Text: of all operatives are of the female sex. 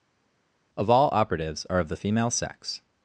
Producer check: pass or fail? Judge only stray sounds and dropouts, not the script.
pass